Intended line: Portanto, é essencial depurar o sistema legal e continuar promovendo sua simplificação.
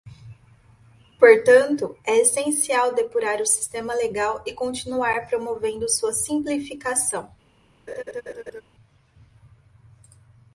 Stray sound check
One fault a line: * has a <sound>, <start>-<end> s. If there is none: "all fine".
* has a laugh, 7.9-8.6 s